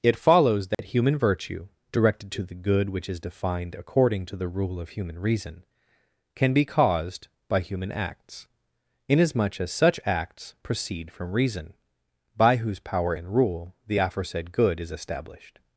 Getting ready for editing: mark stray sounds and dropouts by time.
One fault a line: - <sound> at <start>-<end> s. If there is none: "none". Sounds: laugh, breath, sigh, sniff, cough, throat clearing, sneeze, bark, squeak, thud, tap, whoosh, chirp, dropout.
- dropout at 0.7-0.8 s